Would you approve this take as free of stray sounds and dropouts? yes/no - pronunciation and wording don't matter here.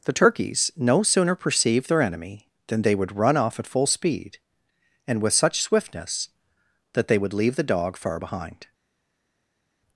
yes